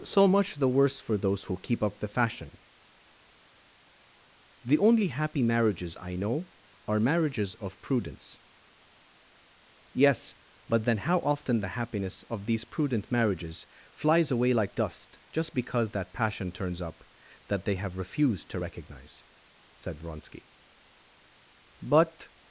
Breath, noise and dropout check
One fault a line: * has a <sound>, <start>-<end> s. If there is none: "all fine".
all fine